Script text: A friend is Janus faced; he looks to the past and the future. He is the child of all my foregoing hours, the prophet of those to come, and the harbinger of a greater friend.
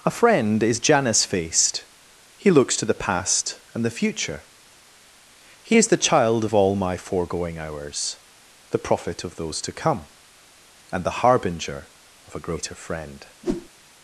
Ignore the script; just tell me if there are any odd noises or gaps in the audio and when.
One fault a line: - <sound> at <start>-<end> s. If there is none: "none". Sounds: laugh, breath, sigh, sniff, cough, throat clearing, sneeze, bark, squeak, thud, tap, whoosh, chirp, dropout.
- whoosh at 13.4-13.7 s